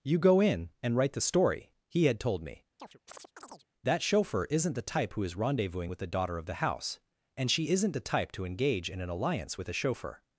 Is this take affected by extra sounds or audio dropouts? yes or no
yes